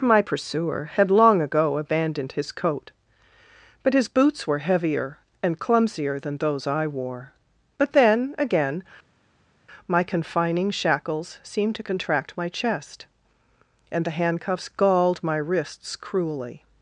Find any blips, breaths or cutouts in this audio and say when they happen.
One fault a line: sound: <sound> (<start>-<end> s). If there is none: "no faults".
no faults